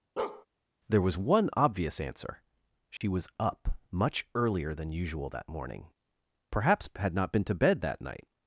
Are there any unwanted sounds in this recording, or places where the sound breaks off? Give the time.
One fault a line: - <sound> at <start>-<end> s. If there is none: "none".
- bark at 0.2-0.5 s
- dropout at 3.0-3.0 s